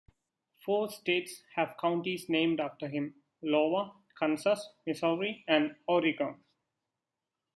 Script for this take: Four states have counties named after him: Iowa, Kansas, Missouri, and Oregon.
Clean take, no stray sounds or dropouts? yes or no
yes